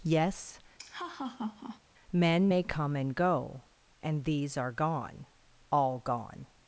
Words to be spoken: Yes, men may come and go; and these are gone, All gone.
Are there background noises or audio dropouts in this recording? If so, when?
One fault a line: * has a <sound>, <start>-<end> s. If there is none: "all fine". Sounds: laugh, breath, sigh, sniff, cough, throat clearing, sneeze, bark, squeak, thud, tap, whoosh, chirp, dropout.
* has a laugh, 0.8-1.8 s